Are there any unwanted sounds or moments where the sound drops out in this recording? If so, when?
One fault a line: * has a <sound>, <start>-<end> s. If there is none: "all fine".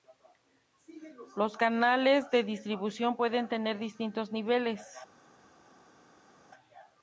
all fine